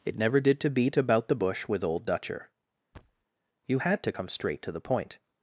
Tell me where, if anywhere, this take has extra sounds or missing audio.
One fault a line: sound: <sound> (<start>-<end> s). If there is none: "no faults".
sound: thud (2.9-3.2 s)